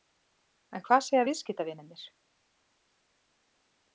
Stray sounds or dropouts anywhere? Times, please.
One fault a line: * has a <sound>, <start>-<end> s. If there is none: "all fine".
all fine